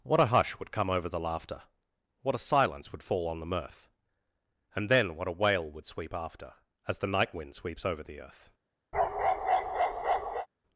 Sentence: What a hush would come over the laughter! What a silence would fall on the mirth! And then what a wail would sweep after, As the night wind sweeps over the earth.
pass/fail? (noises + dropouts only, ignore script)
fail